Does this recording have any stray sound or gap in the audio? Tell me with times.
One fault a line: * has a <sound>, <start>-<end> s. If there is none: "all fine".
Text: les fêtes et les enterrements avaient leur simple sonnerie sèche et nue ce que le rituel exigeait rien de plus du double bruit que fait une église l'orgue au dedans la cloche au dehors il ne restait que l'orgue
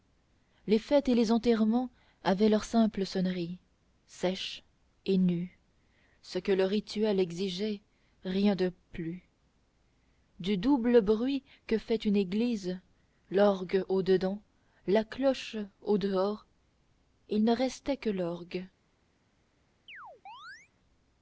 * has a chirp, 19.9-20.7 s